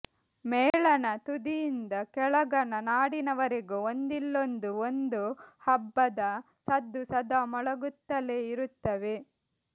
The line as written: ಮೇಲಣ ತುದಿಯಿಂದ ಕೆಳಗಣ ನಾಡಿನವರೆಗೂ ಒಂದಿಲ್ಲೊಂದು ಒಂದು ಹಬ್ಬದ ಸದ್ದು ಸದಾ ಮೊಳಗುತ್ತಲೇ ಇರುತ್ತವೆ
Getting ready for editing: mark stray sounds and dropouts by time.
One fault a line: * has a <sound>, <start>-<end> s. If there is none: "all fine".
* has a dropout, 0.7-0.7 s